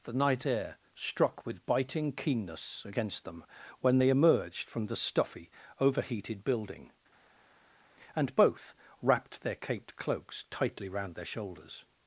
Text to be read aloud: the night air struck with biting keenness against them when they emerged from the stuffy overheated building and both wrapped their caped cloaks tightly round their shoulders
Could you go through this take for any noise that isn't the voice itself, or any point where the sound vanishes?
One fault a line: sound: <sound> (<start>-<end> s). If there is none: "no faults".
no faults